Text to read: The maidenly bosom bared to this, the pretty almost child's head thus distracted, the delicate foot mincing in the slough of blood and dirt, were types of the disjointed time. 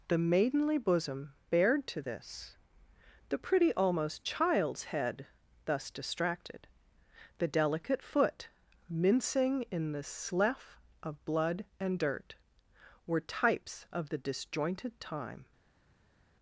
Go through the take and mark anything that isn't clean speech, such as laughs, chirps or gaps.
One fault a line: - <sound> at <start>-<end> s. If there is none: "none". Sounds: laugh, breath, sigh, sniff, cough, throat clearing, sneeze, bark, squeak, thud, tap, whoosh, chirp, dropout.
none